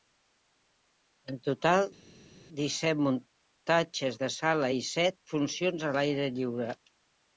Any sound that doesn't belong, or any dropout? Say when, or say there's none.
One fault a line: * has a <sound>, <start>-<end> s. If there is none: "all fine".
all fine